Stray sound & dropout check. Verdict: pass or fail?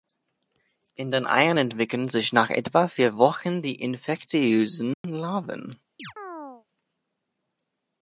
fail